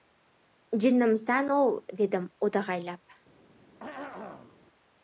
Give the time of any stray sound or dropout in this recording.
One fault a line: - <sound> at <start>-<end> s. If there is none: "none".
- throat clearing at 3.8-4.6 s